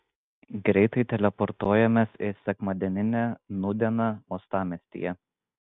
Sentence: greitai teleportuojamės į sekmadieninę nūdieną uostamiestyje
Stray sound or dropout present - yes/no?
no